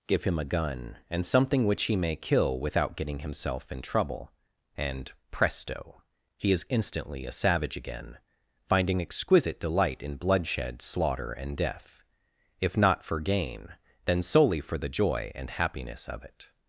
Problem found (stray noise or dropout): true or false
false